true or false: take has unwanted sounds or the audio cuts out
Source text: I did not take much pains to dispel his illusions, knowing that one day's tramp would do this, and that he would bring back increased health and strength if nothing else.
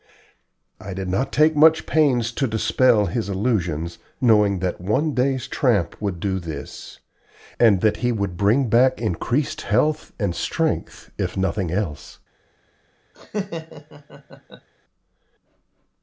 true